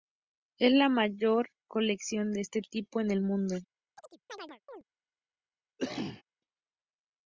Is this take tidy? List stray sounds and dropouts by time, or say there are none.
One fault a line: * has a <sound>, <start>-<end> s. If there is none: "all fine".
* has a chirp, 4.0-4.8 s
* has a cough, 5.8-6.2 s